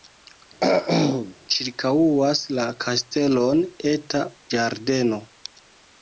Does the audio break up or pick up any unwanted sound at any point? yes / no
yes